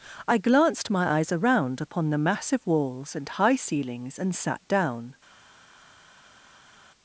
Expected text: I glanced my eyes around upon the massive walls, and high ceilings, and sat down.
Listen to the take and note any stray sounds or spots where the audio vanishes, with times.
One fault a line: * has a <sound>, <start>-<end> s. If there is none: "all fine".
all fine